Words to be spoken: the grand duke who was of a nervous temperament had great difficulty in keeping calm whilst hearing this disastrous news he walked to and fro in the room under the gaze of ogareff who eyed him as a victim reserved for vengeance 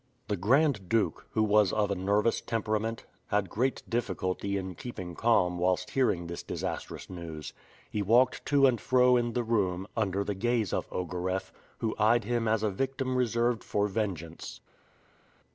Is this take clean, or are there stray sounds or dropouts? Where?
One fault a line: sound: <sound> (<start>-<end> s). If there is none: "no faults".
no faults